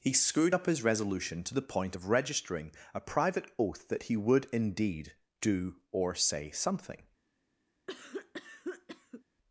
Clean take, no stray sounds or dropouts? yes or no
no